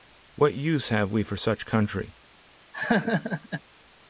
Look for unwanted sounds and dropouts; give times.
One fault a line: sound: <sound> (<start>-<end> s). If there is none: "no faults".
sound: laugh (2.7-3.6 s)